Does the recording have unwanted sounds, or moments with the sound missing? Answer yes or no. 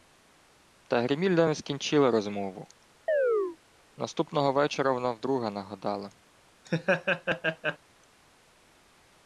yes